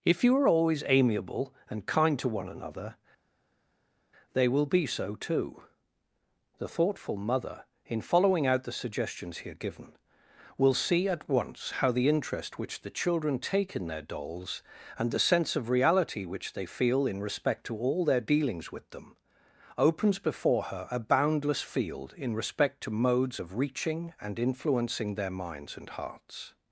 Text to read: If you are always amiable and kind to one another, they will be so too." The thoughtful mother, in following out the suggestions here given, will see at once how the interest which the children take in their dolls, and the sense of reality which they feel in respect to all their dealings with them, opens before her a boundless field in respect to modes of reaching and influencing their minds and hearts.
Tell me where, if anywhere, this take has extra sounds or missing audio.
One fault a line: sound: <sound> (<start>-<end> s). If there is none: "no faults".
no faults